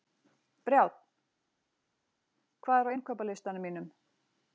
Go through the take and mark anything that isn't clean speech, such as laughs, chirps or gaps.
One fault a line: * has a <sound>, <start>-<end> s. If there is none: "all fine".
all fine